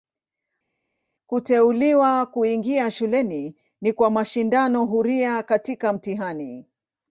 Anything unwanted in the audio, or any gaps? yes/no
no